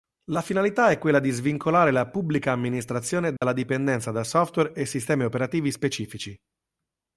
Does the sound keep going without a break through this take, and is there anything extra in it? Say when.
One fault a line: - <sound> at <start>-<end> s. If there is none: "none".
- dropout at 3.4-3.4 s